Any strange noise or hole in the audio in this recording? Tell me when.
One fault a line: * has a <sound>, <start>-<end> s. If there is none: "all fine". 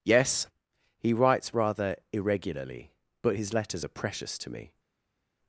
all fine